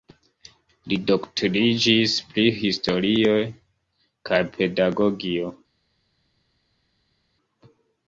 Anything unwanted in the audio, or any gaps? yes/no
no